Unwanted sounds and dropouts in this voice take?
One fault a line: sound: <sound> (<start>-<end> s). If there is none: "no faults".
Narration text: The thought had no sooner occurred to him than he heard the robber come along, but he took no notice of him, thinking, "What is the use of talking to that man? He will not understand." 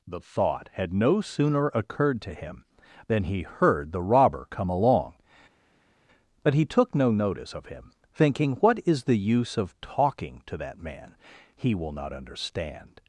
no faults